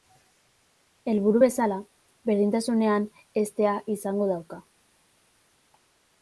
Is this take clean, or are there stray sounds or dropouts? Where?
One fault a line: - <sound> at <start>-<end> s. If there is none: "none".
none